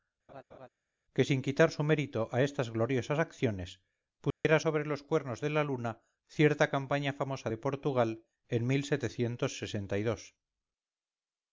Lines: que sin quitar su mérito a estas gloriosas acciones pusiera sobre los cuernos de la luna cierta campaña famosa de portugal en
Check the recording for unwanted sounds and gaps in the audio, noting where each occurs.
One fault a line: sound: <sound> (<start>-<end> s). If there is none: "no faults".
sound: laugh (0.3-0.7 s)
sound: dropout (4.3-4.4 s)